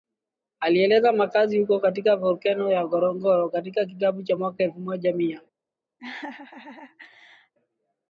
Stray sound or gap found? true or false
true